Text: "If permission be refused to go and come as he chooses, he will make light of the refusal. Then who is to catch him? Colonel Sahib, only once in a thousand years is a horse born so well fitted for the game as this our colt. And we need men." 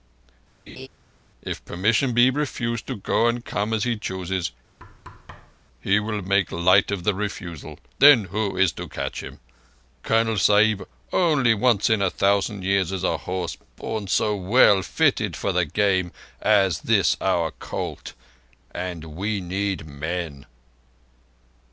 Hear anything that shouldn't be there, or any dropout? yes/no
yes